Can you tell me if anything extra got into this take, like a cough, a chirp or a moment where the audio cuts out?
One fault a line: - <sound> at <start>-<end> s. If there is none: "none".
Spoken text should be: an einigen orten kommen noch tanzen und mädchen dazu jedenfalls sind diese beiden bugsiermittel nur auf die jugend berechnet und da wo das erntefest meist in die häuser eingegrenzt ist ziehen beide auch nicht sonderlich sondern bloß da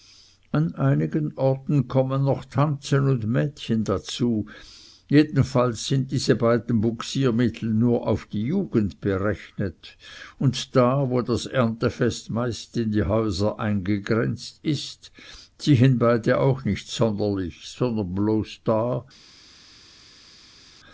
none